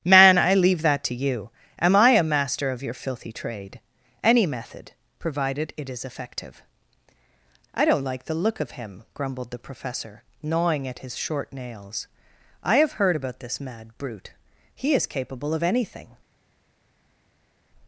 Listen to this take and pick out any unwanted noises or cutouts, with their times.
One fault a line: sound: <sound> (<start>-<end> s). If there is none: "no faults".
no faults